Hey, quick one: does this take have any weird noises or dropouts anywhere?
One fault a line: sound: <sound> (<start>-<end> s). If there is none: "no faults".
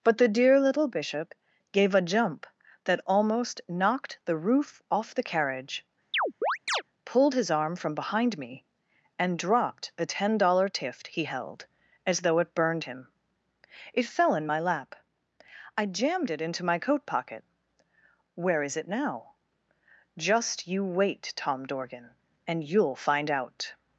sound: chirp (6.1-6.8 s)